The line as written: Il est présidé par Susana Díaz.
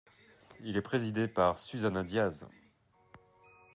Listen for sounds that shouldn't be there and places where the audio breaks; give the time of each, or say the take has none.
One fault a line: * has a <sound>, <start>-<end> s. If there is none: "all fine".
all fine